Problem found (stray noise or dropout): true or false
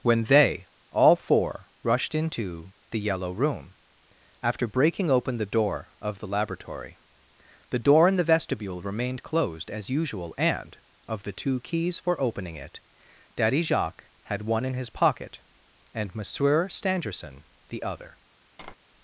true